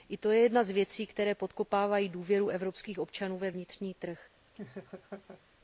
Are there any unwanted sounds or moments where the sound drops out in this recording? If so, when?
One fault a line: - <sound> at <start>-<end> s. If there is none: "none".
- laugh at 4.5-5.4 s